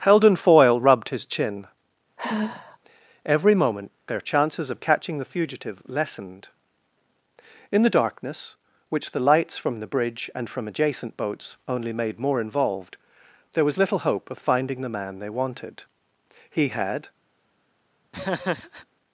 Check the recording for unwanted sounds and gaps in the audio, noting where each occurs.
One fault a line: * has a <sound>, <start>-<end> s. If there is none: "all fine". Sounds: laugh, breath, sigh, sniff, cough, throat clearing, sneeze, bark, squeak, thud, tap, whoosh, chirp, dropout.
* has a sigh, 2.2-2.8 s
* has a laugh, 18.1-18.9 s